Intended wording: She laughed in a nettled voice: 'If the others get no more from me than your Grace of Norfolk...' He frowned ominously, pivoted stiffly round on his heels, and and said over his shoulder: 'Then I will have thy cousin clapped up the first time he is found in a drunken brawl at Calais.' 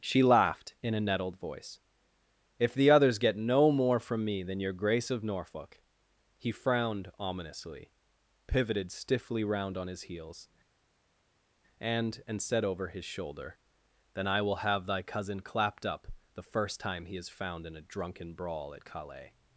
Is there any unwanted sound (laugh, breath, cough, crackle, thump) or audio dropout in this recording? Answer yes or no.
no